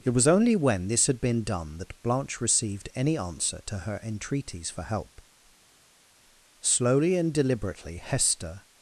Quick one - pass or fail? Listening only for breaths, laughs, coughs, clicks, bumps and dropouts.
pass